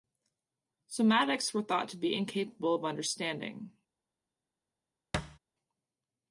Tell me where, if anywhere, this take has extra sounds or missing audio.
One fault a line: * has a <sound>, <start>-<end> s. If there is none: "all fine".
* has a thud, 5.1-5.4 s